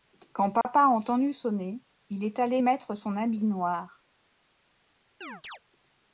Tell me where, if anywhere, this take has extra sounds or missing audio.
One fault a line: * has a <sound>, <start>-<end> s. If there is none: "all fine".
* has a dropout, 0.6-0.7 s
* has a chirp, 5.2-5.6 s